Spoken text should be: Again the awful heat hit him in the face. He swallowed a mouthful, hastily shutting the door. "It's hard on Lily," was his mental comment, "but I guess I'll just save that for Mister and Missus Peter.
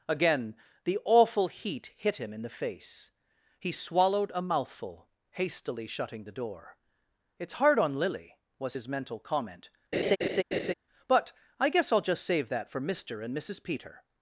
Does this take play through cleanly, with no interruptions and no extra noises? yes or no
no